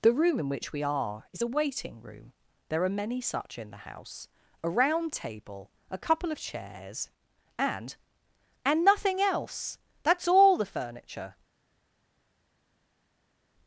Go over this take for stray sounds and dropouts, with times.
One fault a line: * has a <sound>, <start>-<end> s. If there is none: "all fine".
all fine